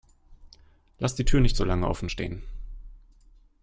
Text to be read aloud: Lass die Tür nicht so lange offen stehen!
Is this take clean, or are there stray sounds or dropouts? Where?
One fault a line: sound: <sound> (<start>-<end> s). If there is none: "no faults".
no faults